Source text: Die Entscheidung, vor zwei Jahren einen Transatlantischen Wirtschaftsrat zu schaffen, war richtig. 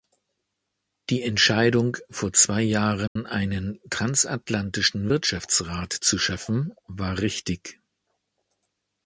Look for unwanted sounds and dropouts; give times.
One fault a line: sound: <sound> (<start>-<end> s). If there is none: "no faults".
sound: dropout (3.1-3.2 s)